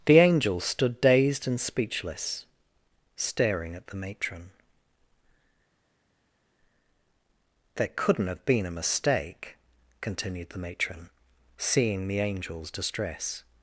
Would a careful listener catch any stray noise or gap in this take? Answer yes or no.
no